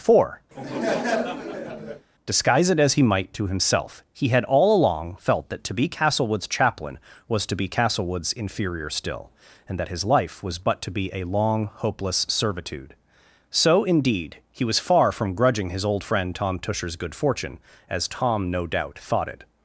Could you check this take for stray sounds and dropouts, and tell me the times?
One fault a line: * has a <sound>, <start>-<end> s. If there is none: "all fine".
* has a laugh, 0.5-2.1 s